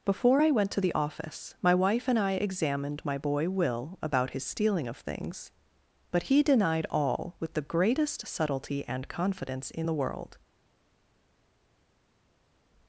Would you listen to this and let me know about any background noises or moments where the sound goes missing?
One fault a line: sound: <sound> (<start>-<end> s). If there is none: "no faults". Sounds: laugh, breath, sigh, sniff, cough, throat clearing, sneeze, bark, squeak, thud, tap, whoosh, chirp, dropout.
no faults